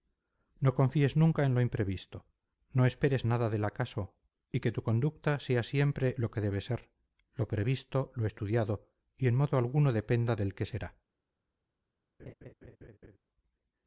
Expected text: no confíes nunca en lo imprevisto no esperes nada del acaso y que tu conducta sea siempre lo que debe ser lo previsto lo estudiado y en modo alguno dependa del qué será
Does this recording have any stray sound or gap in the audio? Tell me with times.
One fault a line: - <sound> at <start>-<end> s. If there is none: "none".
- laugh at 12.2-13.2 s